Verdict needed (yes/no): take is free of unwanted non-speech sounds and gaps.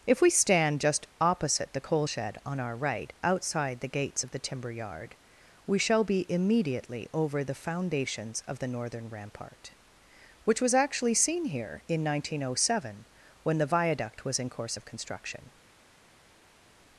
yes